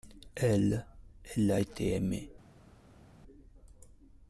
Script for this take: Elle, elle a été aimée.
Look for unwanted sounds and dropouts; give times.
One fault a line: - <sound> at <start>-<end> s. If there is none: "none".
none